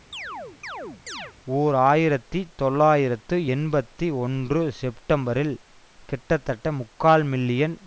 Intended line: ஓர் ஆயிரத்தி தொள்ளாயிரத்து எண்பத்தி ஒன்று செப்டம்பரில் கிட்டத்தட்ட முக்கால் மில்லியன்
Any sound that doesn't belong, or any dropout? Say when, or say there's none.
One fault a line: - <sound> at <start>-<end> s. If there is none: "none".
- chirp at 0.1-1.3 s